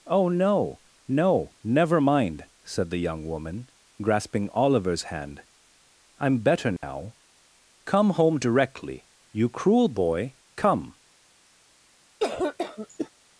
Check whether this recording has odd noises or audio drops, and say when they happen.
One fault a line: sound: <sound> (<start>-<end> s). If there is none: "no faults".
sound: dropout (6.8-6.8 s)
sound: cough (12.2-13.1 s)